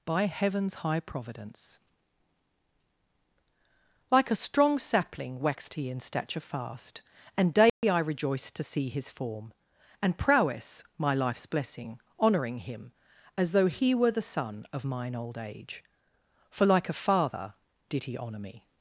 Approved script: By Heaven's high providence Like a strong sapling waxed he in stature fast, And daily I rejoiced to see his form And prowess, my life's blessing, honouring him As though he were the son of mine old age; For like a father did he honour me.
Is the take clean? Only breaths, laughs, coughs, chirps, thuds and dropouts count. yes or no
no